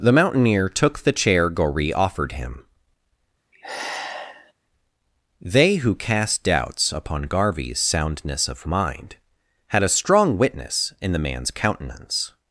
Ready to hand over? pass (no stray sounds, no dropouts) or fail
fail